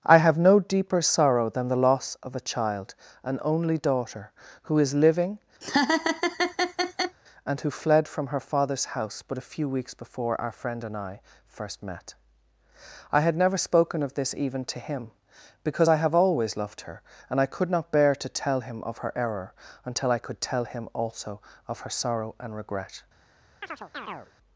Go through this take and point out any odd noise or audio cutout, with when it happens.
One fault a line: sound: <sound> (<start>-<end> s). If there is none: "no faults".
sound: laugh (5.6-7.2 s)
sound: chirp (23.6-24.3 s)